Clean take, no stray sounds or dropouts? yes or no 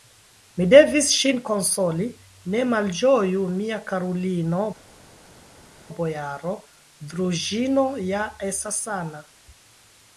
yes